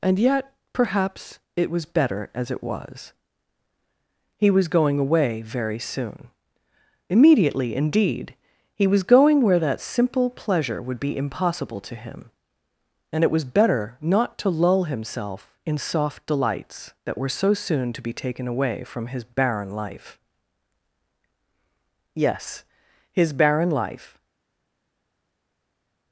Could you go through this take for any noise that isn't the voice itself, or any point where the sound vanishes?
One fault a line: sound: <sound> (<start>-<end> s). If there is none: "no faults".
no faults